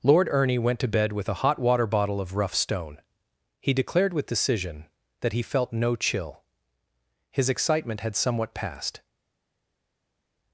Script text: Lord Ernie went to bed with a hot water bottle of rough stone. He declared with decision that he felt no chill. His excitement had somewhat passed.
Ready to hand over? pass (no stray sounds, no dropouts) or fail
pass